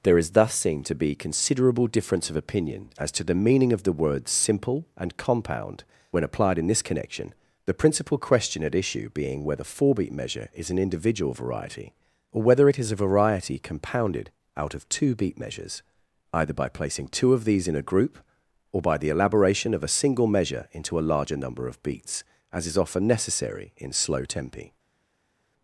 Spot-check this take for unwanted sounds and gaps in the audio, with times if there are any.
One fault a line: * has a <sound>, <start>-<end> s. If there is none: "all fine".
all fine